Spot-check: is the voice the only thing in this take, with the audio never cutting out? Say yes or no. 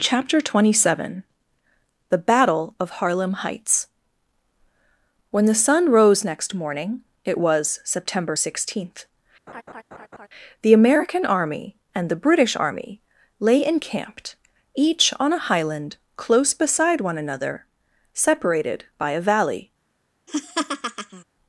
no